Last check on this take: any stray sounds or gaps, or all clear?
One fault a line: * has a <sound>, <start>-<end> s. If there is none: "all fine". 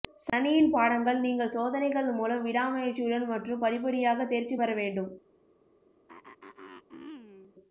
* has a throat clearing, 6.1-7.5 s